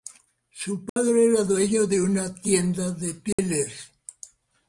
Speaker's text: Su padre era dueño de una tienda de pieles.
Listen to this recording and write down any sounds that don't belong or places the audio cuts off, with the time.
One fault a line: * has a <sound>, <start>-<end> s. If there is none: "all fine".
* has a dropout, 0.9-1.0 s
* has a dropout, 3.3-3.4 s